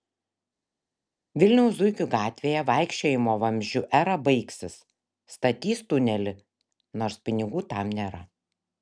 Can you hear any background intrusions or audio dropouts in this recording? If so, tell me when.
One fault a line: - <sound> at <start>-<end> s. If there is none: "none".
none